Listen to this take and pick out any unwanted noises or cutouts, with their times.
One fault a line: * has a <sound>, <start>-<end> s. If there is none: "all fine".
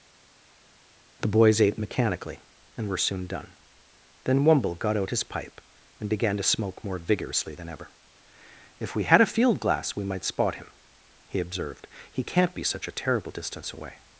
all fine